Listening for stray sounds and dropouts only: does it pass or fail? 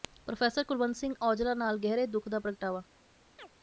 fail